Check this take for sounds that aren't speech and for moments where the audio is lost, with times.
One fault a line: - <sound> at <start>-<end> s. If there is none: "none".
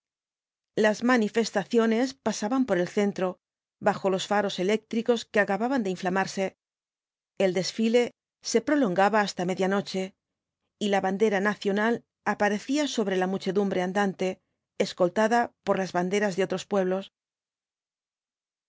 none